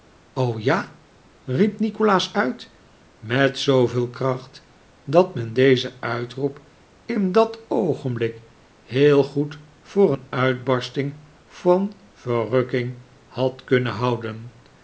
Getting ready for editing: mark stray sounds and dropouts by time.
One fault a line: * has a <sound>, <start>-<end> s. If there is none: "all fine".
all fine